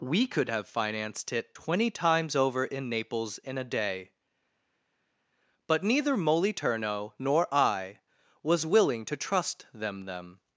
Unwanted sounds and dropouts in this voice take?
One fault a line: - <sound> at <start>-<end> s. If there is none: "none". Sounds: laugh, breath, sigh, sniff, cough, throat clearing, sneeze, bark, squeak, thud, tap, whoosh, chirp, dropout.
none